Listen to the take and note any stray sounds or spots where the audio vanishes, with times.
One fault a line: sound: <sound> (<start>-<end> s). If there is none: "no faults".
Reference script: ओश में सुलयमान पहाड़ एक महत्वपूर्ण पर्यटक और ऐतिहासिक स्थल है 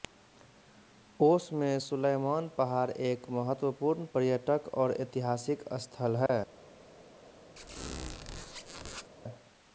sound: dropout (6.3-6.3 s)
sound: squeak (7.6-9.1 s)